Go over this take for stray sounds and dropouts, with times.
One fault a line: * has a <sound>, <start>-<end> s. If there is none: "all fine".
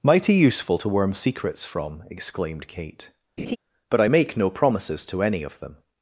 * has a laugh, 3.4-3.6 s